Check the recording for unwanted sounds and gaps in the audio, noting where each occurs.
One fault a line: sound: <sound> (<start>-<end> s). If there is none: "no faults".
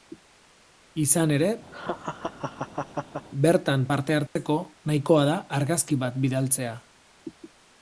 sound: laugh (1.7-3.3 s)
sound: dropout (4.3-4.4 s)